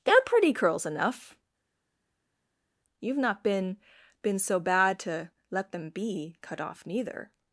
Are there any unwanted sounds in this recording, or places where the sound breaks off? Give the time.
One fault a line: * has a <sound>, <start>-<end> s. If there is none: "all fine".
all fine